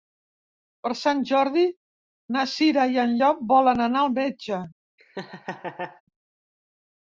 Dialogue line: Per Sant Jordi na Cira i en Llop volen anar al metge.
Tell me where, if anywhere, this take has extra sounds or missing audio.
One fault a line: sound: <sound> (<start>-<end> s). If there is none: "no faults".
sound: laugh (5.0-6.0 s)